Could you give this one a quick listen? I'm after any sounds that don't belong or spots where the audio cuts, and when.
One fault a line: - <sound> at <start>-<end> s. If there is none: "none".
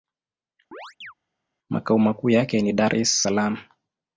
- chirp at 0.7-1.1 s